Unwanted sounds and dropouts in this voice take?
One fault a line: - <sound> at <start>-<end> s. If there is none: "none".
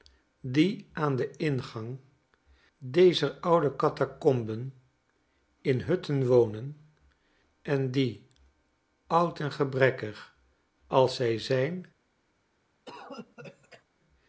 - cough at 12.9-13.8 s